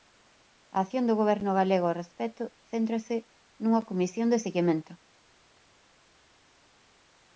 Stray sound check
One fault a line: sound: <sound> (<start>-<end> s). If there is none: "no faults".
no faults